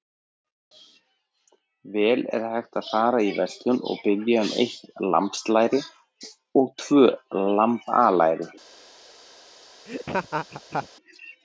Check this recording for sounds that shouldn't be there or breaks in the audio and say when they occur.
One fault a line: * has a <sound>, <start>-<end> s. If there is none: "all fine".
* has a laugh, 9.9-10.9 s